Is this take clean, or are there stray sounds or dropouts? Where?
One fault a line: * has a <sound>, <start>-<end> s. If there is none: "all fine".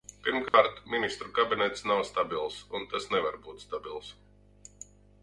* has a dropout, 0.5-0.5 s